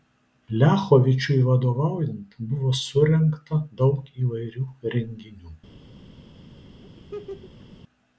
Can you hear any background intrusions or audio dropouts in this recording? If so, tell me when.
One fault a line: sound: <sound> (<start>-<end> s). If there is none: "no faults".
sound: laugh (6.8-7.7 s)